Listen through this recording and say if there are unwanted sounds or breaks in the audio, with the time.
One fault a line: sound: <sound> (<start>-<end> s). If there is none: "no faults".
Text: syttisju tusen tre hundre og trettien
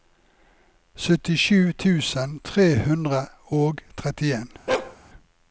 sound: bark (4.7-5.0 s)